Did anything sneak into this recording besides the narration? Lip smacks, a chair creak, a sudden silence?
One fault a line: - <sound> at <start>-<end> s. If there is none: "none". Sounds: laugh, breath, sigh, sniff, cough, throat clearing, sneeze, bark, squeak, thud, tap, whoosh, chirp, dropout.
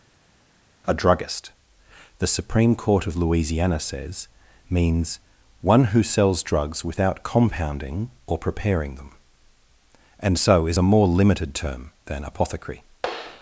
none